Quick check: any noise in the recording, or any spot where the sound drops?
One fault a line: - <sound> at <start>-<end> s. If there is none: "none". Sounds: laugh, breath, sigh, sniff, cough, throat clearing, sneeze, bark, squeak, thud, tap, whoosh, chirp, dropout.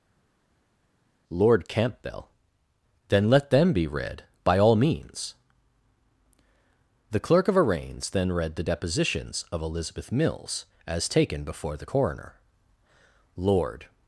none